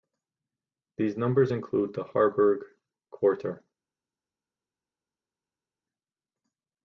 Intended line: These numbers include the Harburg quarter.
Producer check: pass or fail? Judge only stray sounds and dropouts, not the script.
pass